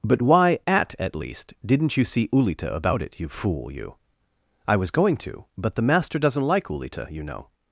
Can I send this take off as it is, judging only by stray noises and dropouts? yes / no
yes